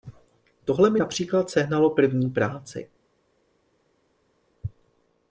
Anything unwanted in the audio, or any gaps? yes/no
no